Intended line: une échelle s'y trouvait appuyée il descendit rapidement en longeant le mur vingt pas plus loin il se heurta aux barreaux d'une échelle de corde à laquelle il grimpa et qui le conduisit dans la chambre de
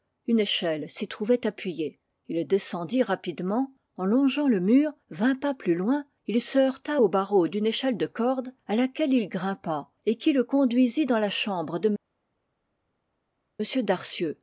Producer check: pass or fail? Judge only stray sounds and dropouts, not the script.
pass